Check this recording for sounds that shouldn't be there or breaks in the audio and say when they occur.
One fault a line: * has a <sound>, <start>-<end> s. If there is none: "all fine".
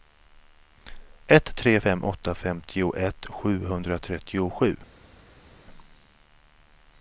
all fine